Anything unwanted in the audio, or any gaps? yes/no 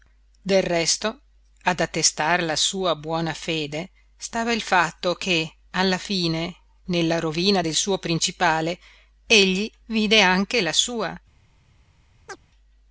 yes